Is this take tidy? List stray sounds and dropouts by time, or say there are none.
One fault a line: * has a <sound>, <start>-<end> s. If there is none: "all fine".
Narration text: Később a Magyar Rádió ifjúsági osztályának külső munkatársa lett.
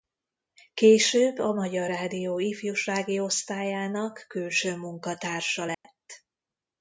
* has a dropout, 5.7-5.8 s